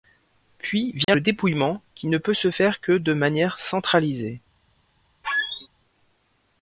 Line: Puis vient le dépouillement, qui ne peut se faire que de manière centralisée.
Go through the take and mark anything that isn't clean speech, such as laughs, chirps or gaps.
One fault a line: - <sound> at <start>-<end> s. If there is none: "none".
- dropout at 1.0-1.1 s
- squeak at 5.2-5.7 s